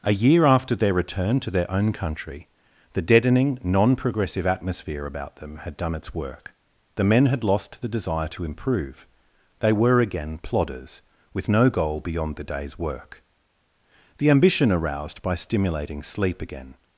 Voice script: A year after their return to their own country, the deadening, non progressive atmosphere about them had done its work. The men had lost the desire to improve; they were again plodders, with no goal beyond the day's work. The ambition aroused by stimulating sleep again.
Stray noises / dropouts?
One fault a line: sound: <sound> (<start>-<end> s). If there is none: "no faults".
no faults